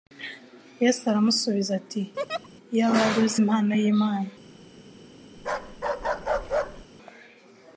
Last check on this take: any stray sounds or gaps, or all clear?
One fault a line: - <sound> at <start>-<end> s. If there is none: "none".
- laugh at 2.2-2.5 s
- bark at 5.4-6.9 s